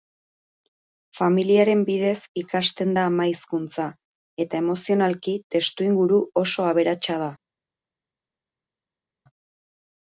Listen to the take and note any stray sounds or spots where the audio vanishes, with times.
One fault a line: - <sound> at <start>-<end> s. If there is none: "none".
none